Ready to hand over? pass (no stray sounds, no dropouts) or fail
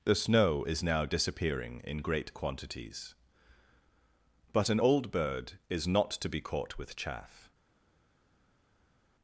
pass